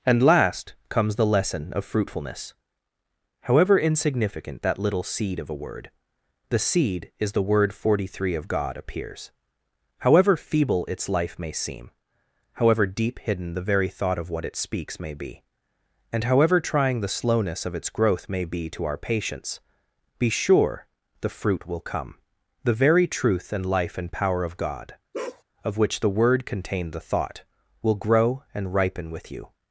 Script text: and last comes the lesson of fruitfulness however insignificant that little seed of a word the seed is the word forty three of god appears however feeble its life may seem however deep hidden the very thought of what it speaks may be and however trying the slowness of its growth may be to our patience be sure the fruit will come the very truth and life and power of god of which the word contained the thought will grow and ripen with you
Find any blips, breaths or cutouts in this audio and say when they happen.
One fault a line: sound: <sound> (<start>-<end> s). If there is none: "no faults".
sound: bark (25.1-25.4 s)